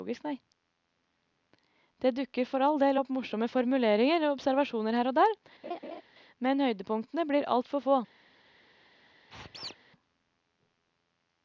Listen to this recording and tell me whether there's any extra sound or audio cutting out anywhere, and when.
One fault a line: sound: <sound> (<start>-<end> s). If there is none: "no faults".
sound: laugh (5.6-6.0 s)
sound: squeak (9.3-9.8 s)